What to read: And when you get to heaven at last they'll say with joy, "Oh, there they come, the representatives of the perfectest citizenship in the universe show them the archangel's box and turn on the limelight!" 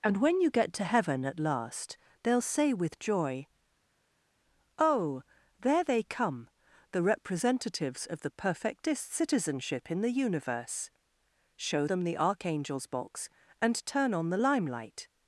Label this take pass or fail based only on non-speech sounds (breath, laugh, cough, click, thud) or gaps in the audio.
pass